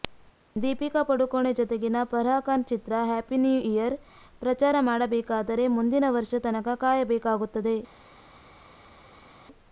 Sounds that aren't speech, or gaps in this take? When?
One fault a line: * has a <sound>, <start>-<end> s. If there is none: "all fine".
all fine